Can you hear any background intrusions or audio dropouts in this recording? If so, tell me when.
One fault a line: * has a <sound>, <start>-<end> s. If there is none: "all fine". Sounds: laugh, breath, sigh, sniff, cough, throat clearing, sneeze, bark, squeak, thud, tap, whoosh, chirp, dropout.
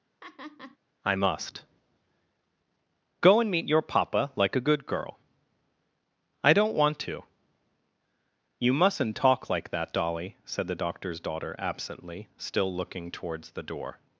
* has a laugh, 0.2-0.8 s